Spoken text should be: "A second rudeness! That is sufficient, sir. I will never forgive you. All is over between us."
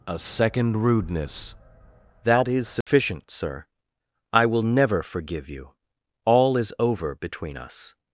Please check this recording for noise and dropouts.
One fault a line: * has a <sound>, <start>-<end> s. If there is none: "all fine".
* has a dropout, 2.8-2.9 s